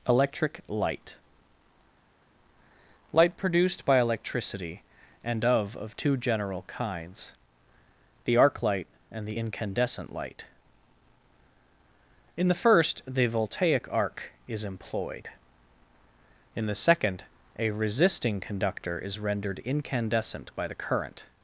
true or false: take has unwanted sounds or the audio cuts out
false